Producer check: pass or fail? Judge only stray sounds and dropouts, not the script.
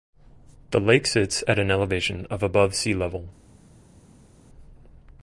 pass